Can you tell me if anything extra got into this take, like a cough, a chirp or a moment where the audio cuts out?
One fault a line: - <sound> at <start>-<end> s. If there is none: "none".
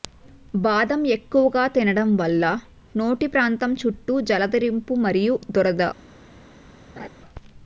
- laugh at 7.0-7.1 s